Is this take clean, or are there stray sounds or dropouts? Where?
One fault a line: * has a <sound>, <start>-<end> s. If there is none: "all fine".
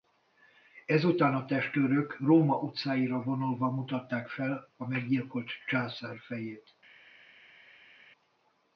all fine